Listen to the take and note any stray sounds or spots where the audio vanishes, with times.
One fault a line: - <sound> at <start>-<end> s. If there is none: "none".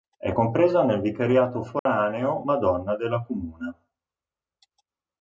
- dropout at 1.8-1.9 s